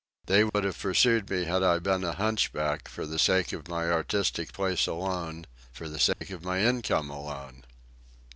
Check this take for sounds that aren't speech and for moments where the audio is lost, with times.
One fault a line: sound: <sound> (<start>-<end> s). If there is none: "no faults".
sound: dropout (0.5-0.5 s)
sound: dropout (6.1-6.2 s)